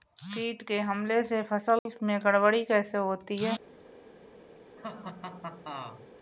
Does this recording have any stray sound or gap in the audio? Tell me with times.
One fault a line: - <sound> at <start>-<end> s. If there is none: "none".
- dropout at 1.8-1.9 s
- laugh at 4.8-6.1 s